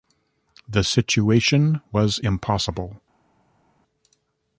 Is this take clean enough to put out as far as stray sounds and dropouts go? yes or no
yes